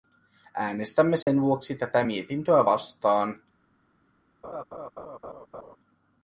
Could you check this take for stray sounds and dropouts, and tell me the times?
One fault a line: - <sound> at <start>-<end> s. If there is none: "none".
- dropout at 1.2-1.3 s
- laugh at 4.4-5.8 s